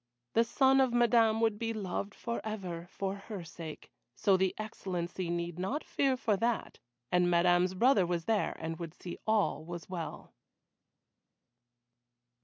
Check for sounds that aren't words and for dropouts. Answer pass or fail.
pass